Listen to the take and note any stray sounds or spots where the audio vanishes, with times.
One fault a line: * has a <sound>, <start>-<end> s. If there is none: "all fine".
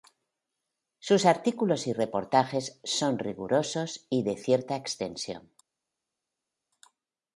all fine